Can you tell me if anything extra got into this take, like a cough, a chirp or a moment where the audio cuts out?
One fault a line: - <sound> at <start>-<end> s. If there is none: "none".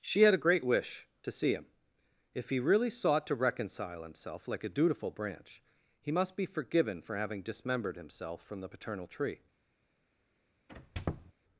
- squeak at 10.7-11.3 s